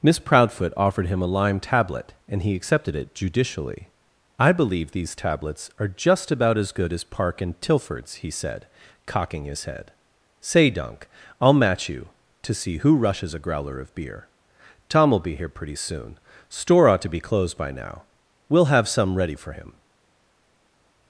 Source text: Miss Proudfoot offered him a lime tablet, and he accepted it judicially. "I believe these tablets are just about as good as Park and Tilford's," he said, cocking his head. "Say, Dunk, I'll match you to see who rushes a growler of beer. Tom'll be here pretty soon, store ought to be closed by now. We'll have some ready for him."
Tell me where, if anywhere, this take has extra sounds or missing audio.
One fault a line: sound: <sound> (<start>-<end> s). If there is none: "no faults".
no faults